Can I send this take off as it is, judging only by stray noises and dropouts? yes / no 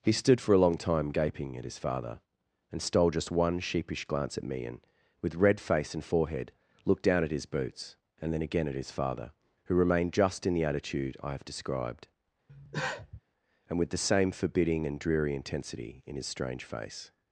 no